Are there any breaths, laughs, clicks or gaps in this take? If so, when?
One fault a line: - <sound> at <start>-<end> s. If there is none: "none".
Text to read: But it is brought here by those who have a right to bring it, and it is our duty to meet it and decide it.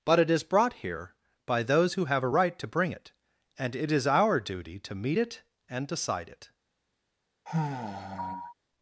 - sigh at 7.5-8.5 s